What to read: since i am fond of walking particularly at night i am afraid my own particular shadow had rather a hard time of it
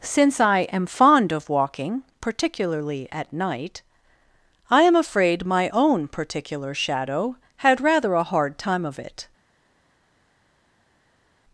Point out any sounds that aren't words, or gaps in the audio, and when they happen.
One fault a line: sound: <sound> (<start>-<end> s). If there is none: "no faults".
no faults